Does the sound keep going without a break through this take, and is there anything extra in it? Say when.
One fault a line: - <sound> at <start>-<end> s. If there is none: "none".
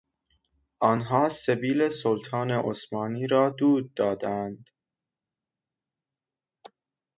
none